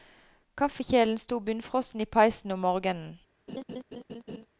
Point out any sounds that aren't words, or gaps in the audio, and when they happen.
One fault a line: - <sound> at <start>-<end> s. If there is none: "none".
- laugh at 3.5-4.5 s